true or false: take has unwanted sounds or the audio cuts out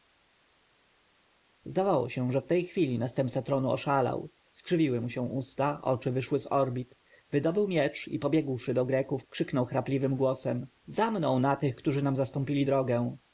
false